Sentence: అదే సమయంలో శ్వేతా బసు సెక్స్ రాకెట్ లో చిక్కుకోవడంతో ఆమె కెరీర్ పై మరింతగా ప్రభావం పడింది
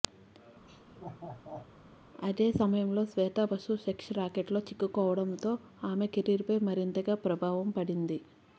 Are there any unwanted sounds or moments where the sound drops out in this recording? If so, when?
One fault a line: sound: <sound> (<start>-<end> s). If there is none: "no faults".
sound: laugh (0.7-1.7 s)